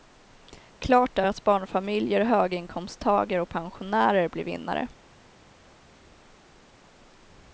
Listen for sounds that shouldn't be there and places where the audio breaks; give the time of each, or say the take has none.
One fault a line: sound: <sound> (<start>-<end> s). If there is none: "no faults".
no faults